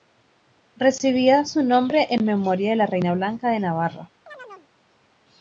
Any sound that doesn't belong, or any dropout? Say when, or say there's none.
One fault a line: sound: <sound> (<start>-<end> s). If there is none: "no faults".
sound: chirp (4.3-4.7 s)